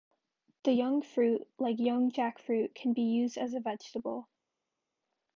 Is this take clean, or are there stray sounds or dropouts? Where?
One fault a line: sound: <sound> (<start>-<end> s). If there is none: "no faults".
no faults